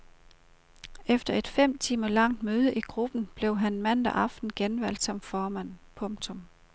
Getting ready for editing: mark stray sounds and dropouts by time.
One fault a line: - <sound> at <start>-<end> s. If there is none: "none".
none